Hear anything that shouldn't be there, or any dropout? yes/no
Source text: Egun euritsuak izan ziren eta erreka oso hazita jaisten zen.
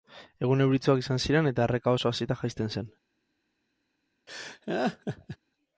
yes